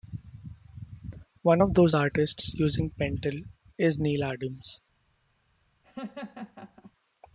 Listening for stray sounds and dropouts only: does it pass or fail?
fail